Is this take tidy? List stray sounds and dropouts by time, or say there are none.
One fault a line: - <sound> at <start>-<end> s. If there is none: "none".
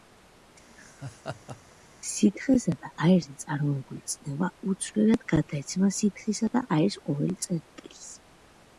- laugh at 0.7-1.8 s